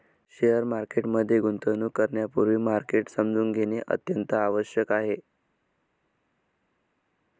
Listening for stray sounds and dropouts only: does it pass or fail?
pass